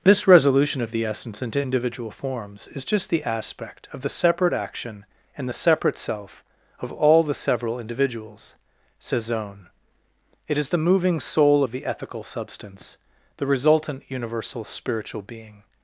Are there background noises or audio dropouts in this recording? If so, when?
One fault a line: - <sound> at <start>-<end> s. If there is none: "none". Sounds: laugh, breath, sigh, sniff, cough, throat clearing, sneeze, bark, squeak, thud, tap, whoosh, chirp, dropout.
none